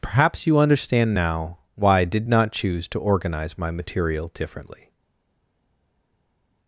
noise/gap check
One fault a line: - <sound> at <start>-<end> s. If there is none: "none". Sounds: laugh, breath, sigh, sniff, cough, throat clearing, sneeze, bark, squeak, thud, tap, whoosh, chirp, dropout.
none